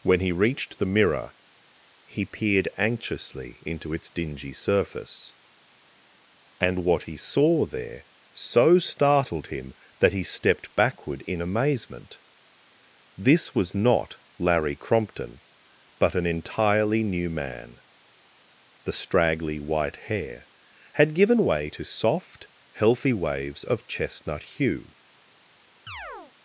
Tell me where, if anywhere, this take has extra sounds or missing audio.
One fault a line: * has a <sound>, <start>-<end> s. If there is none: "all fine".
* has a chirp, 25.9-26.3 s